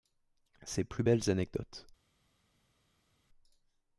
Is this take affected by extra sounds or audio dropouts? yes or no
no